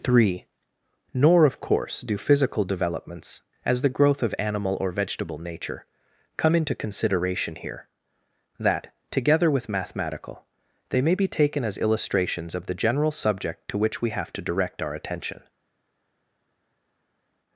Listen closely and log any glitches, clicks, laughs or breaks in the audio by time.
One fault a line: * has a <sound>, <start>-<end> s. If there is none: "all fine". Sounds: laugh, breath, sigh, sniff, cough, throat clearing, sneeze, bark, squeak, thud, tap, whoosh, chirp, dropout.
all fine